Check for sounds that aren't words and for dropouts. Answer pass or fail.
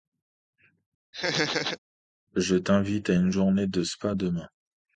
fail